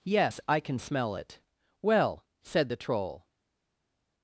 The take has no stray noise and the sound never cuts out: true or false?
true